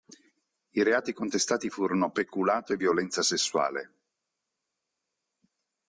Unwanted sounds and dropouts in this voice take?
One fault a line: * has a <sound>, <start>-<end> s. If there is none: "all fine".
all fine